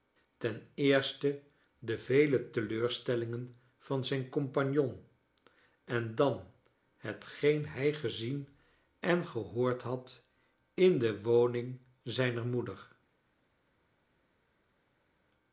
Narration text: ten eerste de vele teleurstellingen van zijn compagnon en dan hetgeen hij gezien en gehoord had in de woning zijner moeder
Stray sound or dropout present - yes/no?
no